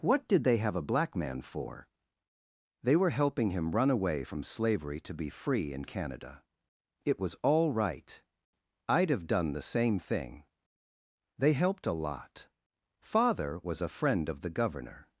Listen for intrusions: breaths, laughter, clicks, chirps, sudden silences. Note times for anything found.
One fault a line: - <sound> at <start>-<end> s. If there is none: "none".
none